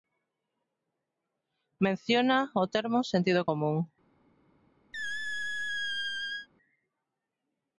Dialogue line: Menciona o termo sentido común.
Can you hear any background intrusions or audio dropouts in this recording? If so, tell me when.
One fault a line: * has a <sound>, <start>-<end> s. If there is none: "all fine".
* has a squeak, 4.9-6.5 s